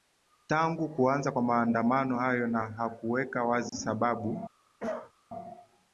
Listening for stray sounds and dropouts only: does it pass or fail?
fail